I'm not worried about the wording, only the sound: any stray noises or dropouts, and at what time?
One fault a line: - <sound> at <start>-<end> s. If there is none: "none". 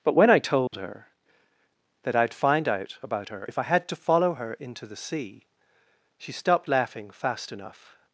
- dropout at 0.7-0.7 s